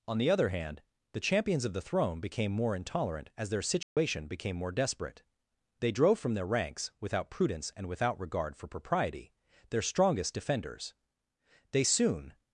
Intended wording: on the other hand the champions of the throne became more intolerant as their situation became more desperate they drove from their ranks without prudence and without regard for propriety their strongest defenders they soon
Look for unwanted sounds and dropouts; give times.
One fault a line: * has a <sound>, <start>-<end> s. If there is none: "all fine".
* has a dropout, 3.8-4.0 s